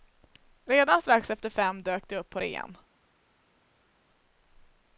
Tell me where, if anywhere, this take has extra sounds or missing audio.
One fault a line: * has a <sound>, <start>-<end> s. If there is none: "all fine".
all fine